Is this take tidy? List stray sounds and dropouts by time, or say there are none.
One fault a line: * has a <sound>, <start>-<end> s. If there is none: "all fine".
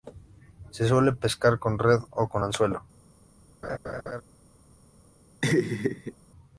* has a laugh, 3.6-4.2 s
* has a laugh, 5.4-6.1 s